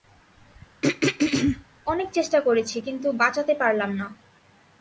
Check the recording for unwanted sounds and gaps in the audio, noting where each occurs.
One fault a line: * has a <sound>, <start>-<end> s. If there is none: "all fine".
* has a throat clearing, 0.8-1.7 s